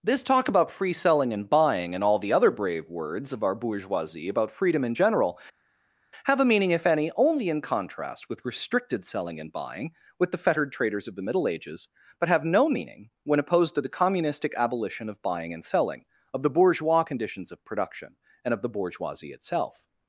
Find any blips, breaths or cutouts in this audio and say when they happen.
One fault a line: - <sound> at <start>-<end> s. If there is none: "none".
none